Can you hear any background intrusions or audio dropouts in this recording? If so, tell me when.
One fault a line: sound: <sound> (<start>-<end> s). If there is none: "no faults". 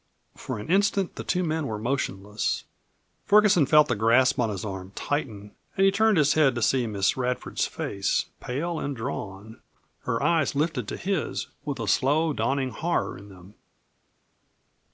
no faults